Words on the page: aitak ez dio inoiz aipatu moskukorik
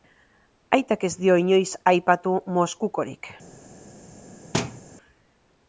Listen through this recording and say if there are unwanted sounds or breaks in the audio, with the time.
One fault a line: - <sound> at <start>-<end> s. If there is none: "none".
- thud at 4.5-4.8 s